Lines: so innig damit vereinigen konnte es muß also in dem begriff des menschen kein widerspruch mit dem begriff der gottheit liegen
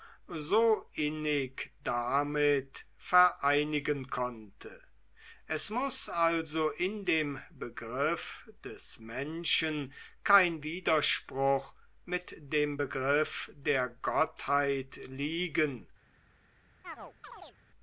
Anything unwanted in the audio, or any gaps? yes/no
yes